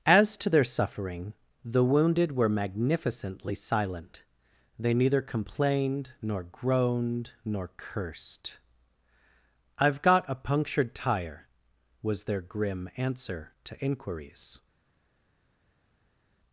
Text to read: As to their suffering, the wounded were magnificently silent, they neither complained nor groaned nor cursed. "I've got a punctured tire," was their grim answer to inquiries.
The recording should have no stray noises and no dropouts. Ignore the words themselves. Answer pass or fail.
pass